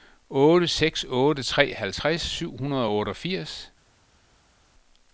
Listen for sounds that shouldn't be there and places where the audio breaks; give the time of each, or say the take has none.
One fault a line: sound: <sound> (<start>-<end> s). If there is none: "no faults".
no faults